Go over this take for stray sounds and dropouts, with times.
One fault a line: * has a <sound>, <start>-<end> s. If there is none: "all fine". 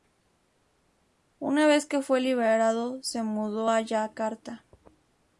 all fine